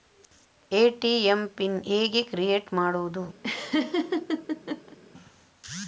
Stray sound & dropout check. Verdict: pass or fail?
fail